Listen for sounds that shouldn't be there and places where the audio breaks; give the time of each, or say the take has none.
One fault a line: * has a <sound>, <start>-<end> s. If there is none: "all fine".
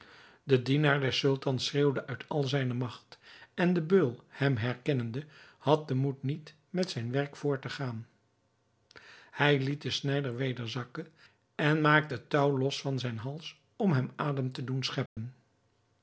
* has a dropout, 15.1-15.2 s